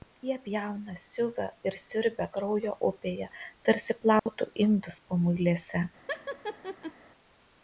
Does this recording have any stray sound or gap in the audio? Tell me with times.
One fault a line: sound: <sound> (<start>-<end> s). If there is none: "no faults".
sound: dropout (4.2-4.3 s)
sound: laugh (6.1-6.9 s)